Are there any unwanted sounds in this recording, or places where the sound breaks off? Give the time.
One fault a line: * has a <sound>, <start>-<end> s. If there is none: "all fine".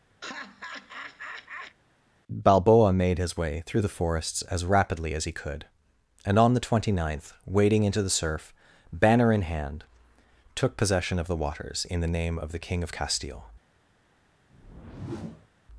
* has a laugh, 0.2-1.8 s
* has a whoosh, 14.5-15.5 s